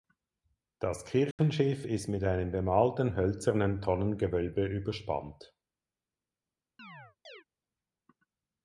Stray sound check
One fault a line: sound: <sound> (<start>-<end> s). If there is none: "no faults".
sound: dropout (1.3-1.4 s)
sound: chirp (6.8-7.4 s)